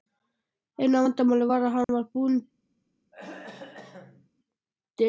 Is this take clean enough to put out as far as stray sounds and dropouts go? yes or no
no